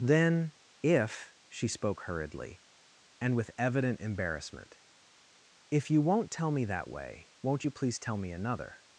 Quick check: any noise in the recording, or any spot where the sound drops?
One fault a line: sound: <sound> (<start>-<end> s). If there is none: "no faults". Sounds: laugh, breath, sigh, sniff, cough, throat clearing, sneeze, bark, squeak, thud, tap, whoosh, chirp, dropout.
no faults